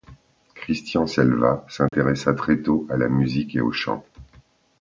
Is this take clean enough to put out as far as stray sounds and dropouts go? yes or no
no